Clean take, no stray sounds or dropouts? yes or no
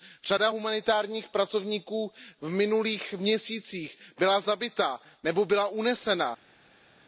yes